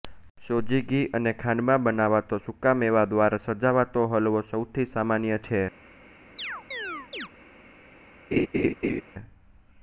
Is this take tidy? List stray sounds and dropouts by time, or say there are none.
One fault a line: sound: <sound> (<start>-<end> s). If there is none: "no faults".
sound: chirp (6.4-7.3 s)
sound: laugh (8.3-9.0 s)